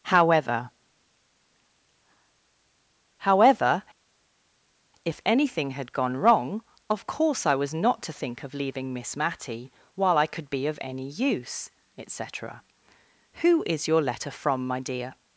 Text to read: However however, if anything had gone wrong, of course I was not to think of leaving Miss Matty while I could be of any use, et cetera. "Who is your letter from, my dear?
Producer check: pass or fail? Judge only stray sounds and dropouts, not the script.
pass